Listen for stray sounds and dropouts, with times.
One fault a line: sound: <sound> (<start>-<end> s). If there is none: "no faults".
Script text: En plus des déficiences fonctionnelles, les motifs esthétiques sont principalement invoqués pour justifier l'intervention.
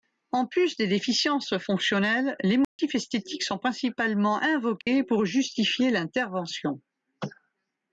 sound: dropout (2.6-2.8 s)
sound: dropout (4.8-4.9 s)